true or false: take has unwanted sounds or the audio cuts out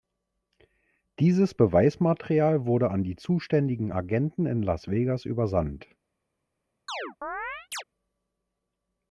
true